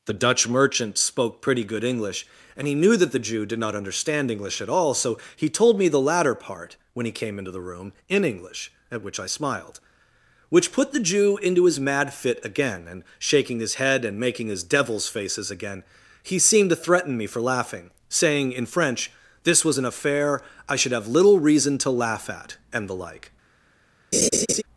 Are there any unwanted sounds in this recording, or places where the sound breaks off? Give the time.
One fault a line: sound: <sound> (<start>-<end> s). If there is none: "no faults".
sound: laugh (24.1-24.6 s)